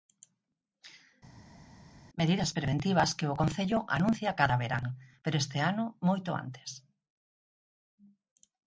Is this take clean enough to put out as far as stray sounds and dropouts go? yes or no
yes